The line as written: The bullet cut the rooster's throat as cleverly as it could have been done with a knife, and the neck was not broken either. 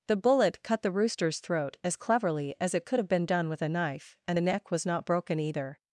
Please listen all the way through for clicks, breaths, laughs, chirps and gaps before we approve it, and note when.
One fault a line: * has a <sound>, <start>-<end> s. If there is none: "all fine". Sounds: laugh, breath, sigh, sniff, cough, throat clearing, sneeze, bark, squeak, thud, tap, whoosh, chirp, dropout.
all fine